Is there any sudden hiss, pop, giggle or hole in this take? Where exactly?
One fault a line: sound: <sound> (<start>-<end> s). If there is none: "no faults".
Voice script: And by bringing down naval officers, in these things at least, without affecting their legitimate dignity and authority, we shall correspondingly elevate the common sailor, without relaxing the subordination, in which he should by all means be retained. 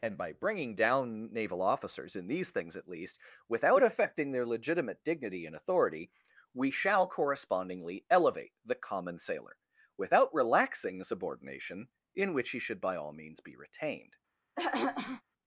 sound: throat clearing (14.6-15.2 s)